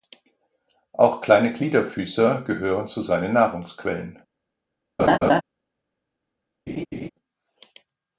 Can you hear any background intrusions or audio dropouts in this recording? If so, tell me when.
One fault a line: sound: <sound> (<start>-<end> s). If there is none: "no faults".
sound: laugh (5.0-5.4 s)
sound: laugh (6.7-7.1 s)